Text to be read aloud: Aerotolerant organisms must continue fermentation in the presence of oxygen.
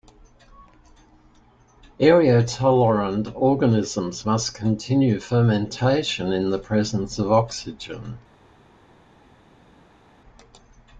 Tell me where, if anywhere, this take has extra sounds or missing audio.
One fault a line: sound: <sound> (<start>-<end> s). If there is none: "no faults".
no faults